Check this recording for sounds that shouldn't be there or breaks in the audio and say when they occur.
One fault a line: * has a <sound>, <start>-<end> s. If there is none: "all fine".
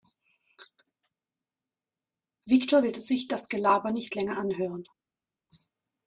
all fine